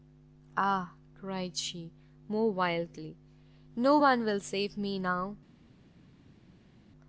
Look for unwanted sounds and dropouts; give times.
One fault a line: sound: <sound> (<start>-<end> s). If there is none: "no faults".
no faults